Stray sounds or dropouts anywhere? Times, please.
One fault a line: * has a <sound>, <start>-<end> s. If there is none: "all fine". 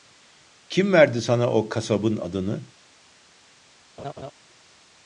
* has a laugh, 4.0-4.3 s